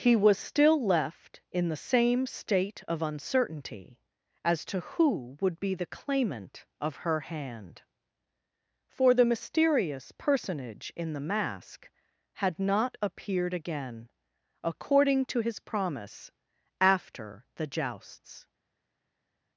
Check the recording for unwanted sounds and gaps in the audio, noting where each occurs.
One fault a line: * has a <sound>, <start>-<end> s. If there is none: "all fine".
all fine